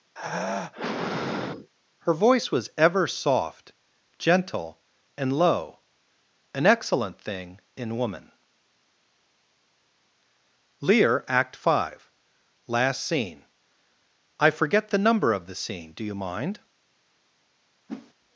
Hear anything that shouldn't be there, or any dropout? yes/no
yes